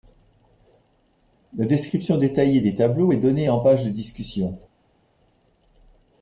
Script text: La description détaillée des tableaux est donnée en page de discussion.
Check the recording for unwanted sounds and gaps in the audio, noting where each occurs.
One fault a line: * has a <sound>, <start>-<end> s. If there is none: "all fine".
all fine